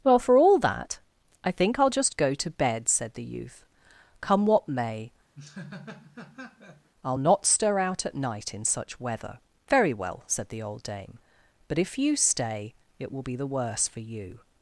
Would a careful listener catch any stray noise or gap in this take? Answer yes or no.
yes